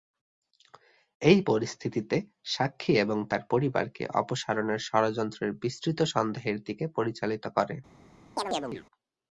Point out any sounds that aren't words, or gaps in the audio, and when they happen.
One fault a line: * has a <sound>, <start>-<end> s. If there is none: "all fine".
* has a chirp, 8.4-8.9 s